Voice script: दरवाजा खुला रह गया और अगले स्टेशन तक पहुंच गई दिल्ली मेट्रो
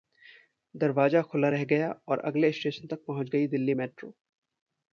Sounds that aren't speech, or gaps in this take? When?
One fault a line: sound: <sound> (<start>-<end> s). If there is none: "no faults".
no faults